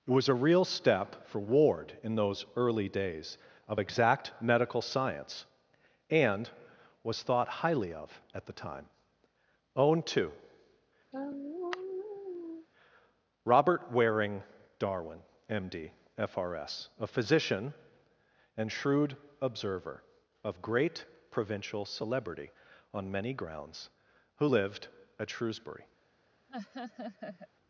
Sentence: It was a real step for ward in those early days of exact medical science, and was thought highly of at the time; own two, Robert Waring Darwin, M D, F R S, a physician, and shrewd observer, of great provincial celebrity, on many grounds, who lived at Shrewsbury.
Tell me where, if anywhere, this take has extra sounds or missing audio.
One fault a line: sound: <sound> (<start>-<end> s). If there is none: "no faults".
sound: sigh (11.1-12.7 s)
sound: laugh (26.5-27.5 s)